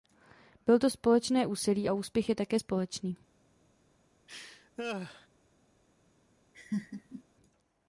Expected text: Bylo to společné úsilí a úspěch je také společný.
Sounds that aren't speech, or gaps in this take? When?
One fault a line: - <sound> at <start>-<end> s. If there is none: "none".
- laugh at 4.3-5.3 s
- laugh at 6.5-7.2 s